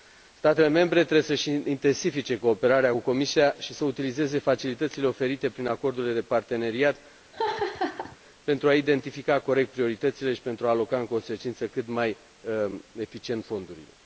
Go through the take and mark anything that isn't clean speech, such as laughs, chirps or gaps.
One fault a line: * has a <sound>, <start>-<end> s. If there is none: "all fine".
* has a laugh, 7.3-8.2 s